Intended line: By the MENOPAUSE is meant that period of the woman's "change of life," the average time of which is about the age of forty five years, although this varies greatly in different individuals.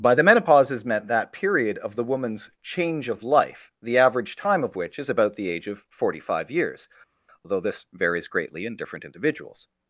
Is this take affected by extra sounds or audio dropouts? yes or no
no